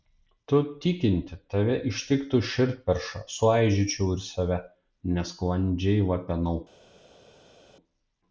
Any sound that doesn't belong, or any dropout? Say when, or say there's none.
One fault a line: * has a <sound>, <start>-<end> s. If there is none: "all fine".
all fine